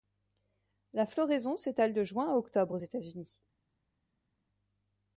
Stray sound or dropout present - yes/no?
no